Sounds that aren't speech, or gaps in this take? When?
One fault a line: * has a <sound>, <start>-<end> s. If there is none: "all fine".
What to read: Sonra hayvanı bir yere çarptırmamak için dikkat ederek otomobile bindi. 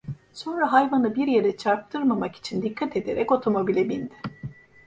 all fine